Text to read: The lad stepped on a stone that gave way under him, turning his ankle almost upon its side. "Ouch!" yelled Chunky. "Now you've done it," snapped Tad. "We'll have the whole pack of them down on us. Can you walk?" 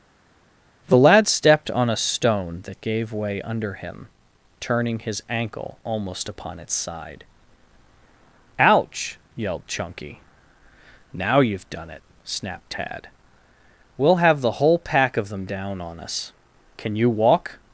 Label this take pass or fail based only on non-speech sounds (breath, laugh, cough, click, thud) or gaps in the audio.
pass